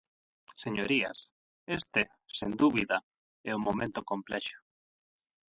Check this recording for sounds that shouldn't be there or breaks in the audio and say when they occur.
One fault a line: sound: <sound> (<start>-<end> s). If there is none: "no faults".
no faults